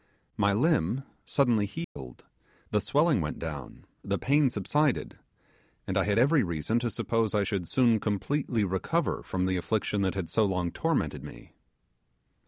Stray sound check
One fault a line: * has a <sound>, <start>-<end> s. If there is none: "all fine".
* has a dropout, 1.8-2.0 s